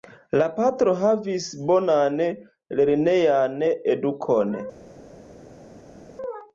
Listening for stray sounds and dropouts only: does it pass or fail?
pass